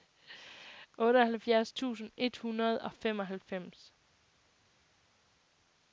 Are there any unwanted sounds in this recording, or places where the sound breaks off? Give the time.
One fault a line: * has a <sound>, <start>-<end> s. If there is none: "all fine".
all fine